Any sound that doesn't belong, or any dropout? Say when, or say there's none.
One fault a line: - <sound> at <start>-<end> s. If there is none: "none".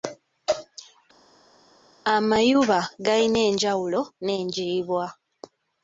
none